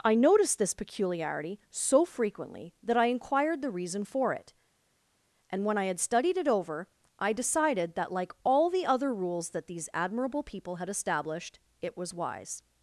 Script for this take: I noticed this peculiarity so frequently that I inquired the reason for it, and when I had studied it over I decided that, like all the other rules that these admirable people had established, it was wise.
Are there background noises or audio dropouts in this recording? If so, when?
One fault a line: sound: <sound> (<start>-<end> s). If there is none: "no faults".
no faults